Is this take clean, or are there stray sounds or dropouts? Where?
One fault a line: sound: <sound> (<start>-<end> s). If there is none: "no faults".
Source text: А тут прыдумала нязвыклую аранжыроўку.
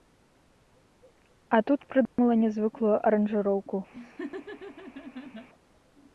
sound: dropout (2.1-2.2 s)
sound: laugh (3.9-5.5 s)